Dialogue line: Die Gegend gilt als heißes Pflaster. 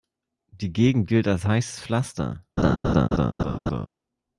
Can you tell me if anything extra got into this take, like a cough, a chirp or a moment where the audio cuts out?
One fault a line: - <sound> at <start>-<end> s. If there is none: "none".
- laugh at 2.6-3.9 s